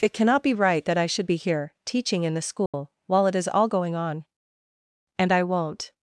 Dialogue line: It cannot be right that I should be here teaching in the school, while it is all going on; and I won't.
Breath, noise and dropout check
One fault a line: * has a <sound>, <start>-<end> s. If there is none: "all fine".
* has a dropout, 2.7-2.7 s